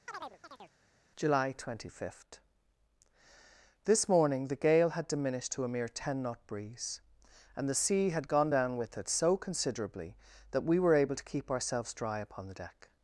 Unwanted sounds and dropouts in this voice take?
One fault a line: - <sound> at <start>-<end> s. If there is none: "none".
- chirp at 0.1-0.8 s